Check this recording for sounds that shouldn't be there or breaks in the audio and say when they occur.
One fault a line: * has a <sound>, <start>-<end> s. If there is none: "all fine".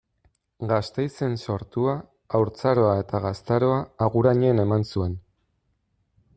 all fine